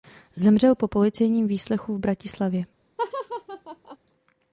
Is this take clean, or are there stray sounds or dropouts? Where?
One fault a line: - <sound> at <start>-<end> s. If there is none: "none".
- laugh at 3.0-4.0 s